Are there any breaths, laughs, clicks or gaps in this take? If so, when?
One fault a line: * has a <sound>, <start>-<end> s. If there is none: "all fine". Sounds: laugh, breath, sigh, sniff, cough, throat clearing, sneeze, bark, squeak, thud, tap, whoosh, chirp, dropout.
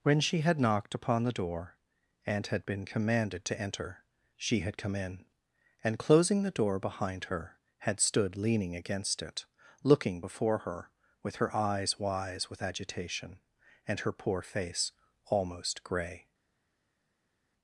all fine